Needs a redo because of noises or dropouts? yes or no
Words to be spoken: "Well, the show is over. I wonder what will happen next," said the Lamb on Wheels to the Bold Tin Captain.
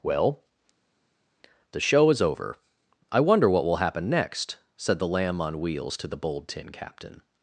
no